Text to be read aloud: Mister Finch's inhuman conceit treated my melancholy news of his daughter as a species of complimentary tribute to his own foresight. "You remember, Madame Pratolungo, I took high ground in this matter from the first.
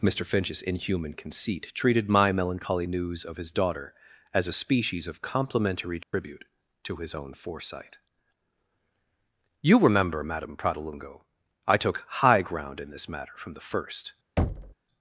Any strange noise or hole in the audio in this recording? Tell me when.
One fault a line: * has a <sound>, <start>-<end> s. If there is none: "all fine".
* has a dropout, 6.0-6.1 s
* has a thud, 14.4-14.7 s